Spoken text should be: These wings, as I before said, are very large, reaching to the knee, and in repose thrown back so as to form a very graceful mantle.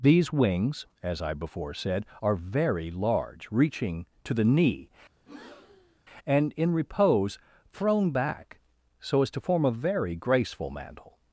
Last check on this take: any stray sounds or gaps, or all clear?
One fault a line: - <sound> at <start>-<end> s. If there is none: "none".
- breath at 5.2-6.0 s